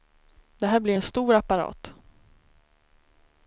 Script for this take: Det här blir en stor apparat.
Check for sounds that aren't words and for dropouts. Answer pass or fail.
pass